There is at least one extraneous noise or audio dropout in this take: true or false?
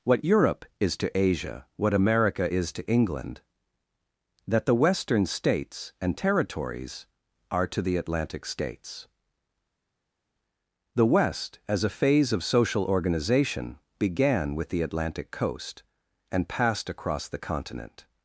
false